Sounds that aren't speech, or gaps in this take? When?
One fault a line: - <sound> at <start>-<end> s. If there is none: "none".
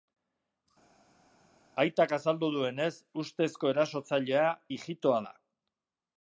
none